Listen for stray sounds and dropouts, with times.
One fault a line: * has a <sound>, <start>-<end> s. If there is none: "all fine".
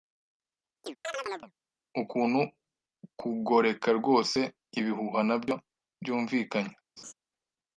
* has a chirp, 0.8-1.5 s
* has a laugh, 7.0-7.1 s